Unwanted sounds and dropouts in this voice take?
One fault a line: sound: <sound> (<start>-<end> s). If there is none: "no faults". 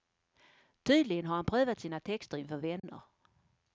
sound: dropout (2.8-2.8 s)